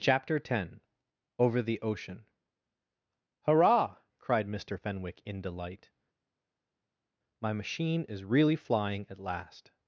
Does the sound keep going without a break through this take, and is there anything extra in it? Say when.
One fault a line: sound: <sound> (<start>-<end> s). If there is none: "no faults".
no faults